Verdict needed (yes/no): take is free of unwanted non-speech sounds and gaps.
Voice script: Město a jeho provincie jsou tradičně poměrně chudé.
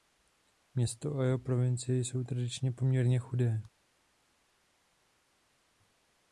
yes